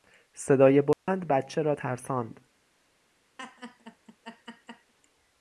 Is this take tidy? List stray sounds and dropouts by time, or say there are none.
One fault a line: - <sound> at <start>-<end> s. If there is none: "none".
- dropout at 0.9-1.1 s
- laugh at 3.4-4.9 s